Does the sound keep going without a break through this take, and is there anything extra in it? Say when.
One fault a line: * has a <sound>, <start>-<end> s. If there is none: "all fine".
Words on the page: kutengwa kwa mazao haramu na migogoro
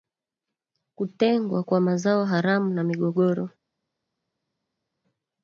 all fine